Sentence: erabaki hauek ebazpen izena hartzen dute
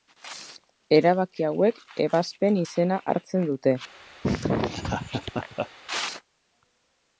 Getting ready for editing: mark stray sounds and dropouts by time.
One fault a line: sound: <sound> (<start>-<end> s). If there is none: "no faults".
sound: laugh (4.2-5.7 s)